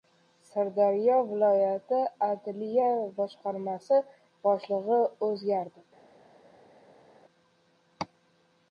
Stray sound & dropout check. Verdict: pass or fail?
pass